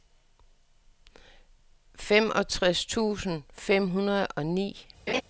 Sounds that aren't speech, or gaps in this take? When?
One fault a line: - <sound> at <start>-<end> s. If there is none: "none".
- laugh at 5.1-5.2 s